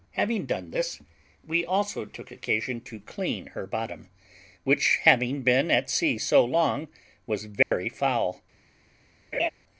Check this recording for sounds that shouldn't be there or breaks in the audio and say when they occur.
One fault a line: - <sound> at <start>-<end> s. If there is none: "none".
- dropout at 7.6-7.7 s
- laugh at 9.3-9.5 s